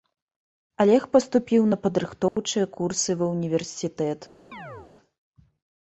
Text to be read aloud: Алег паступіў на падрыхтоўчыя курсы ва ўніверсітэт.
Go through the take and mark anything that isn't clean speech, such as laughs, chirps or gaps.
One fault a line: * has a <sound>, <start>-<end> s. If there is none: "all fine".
* has a dropout, 2.3-2.4 s
* has a chirp, 4.5-4.9 s